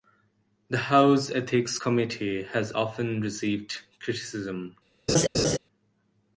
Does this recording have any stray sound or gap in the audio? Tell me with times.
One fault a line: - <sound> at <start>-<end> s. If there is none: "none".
- laugh at 5.1-5.6 s